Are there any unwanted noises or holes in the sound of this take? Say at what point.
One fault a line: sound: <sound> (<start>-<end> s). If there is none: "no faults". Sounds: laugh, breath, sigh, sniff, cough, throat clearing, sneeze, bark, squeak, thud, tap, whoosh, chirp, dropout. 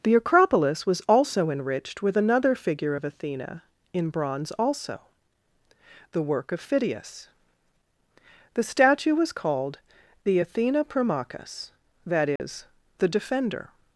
sound: dropout (12.4-12.4 s)